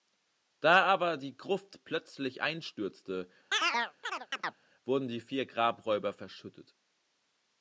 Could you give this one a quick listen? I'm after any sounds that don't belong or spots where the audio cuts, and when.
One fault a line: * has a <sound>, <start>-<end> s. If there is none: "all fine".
* has a chirp, 3.5-4.6 s